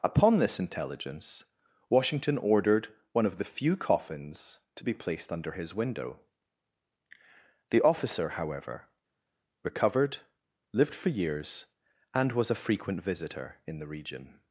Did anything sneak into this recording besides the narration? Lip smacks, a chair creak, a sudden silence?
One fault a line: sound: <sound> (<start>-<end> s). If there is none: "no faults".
no faults